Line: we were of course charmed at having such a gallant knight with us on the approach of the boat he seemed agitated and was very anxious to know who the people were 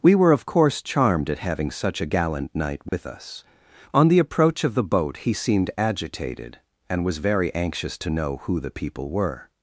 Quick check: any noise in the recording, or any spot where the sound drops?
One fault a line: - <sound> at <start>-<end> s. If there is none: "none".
- dropout at 2.9-2.9 s